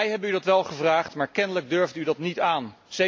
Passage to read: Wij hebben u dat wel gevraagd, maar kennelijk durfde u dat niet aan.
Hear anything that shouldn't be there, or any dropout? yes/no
no